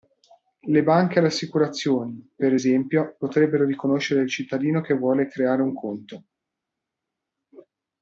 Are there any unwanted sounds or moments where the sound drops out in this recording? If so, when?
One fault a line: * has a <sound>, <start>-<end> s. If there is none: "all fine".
all fine